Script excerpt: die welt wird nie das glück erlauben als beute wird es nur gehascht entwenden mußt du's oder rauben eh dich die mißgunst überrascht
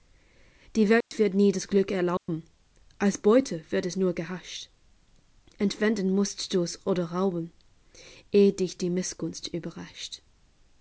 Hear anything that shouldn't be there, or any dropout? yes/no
yes